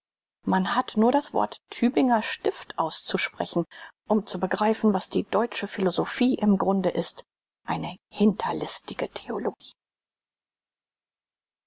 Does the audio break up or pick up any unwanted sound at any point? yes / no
no